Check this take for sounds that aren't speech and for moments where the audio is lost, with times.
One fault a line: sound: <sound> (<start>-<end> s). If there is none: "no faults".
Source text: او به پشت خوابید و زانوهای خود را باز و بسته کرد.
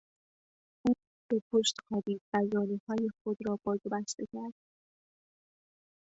no faults